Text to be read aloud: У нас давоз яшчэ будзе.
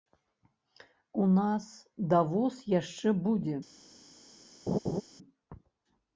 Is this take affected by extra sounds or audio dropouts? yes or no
yes